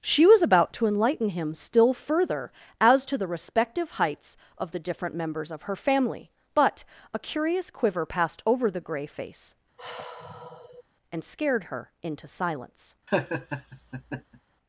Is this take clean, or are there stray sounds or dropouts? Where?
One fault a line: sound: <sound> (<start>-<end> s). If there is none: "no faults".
sound: sigh (9.8-10.8 s)
sound: laugh (13.1-14.4 s)